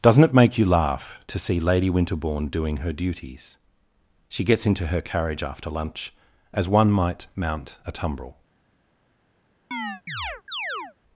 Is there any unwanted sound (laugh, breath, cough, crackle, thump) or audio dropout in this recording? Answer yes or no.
yes